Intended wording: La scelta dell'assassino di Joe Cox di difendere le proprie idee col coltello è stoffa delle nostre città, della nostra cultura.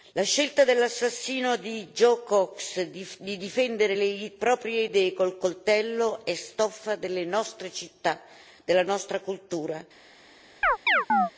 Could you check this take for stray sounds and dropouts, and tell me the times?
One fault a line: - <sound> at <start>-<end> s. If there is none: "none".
- chirp at 10.6-11.3 s